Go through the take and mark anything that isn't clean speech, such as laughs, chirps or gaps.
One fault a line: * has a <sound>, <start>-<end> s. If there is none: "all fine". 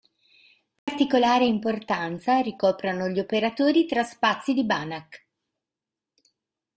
* has a dropout, 0.8-0.9 s